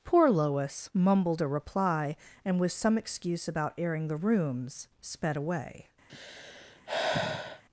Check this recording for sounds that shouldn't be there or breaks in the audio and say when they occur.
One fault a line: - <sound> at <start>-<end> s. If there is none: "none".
- sigh at 6.1-7.6 s